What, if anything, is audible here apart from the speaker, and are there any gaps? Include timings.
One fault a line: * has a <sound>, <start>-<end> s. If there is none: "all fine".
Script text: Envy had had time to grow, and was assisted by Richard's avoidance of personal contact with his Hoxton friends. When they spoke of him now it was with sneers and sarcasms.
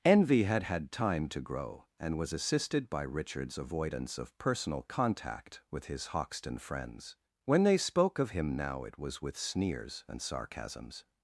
all fine